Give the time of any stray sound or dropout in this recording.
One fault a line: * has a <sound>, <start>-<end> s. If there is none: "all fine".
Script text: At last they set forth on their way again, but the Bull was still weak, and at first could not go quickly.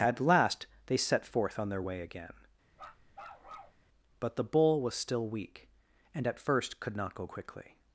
* has a bark, 2.7-3.8 s